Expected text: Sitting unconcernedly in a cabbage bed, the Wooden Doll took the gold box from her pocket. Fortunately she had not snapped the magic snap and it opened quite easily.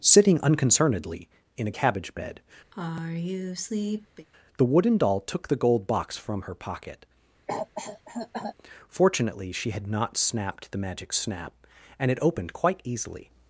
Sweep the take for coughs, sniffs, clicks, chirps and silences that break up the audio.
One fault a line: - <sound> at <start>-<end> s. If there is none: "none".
- sigh at 2.7-4.3 s
- cough at 7.5-8.6 s